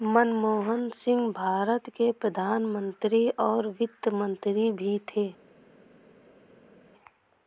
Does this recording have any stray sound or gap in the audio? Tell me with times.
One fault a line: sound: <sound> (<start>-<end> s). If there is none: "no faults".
no faults